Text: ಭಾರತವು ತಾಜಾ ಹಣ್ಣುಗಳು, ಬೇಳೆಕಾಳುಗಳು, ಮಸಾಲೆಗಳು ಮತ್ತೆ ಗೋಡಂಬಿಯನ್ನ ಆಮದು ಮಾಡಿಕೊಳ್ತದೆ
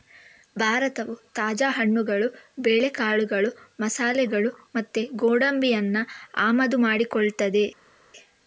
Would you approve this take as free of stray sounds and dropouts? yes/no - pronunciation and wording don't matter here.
yes